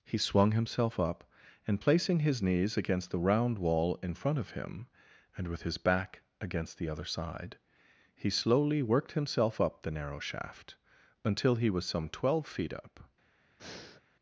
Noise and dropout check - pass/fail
fail